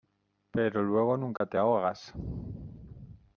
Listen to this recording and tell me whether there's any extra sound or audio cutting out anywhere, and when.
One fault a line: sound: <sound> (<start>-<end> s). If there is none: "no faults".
sound: dropout (1.4-1.4 s)